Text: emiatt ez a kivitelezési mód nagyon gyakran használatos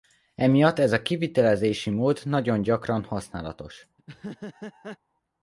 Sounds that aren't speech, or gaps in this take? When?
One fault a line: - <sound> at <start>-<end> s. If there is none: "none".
- laugh at 4.0-5.0 s